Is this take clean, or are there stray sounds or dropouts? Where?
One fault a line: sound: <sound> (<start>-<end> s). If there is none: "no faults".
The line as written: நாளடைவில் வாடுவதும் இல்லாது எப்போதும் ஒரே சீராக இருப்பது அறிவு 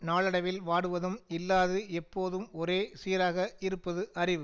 no faults